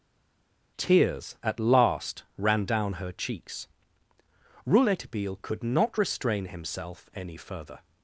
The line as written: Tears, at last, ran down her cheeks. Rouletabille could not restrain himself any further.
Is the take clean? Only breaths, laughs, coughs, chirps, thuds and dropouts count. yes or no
yes